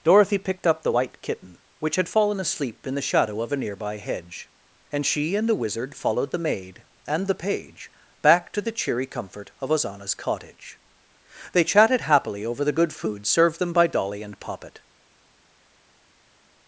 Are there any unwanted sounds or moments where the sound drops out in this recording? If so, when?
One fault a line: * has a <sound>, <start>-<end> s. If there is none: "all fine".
all fine